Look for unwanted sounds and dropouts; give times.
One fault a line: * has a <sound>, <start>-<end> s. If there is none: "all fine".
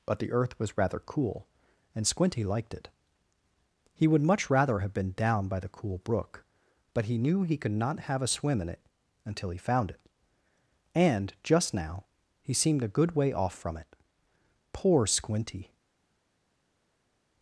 all fine